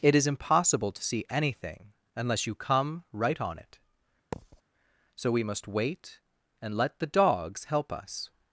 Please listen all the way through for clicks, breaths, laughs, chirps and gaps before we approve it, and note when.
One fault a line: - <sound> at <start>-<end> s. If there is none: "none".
- thud at 4.3-4.6 s